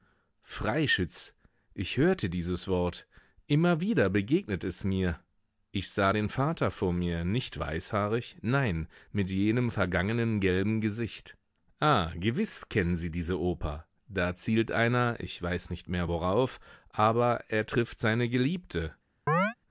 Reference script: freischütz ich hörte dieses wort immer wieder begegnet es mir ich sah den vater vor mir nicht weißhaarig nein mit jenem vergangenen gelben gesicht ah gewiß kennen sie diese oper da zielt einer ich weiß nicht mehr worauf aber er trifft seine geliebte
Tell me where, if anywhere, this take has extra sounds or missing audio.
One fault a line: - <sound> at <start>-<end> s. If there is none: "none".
- chirp at 19.3-19.5 s